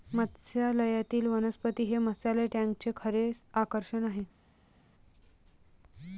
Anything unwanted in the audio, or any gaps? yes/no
no